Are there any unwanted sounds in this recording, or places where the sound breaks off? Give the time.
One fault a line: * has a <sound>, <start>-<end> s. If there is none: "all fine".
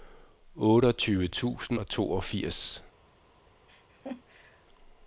* has a laugh, 3.7-4.7 s